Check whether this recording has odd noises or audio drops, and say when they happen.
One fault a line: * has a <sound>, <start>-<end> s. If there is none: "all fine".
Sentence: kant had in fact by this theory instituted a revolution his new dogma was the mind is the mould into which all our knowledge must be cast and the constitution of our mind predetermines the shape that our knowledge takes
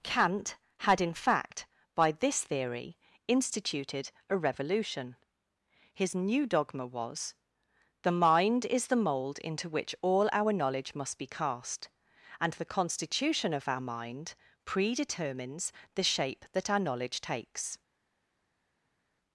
all fine